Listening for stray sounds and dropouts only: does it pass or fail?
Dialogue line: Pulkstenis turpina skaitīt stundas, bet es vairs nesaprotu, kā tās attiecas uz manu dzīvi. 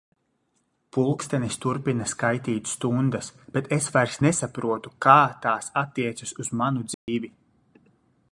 fail